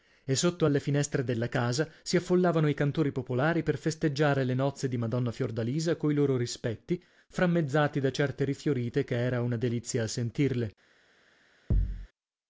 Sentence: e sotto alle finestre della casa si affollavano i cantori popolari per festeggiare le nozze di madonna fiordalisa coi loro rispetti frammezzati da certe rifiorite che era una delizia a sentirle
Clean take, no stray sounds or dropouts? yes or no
no